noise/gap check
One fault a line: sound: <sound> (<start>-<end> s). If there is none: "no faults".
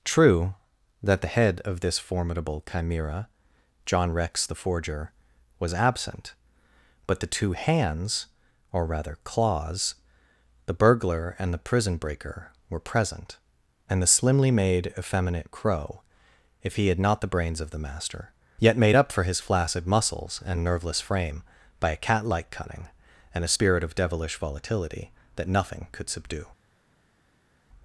no faults